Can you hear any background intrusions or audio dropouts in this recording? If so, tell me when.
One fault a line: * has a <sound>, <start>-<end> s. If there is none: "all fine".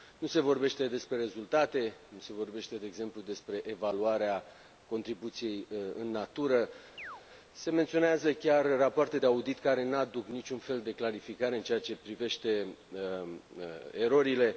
* has a chirp, 7.0-7.2 s